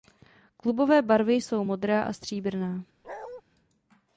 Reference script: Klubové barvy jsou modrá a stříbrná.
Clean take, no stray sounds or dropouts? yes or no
no